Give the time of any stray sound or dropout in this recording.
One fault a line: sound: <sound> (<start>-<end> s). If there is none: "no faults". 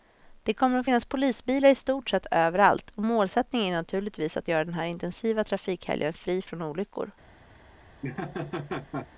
sound: laugh (8.0-9.1 s)